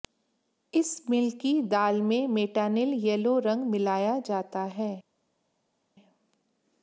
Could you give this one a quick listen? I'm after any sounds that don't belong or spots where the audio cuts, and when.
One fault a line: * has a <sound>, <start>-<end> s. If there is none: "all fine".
all fine